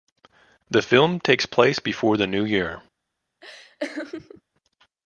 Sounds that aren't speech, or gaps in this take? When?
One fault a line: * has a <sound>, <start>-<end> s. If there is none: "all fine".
* has a laugh, 3.4-4.4 s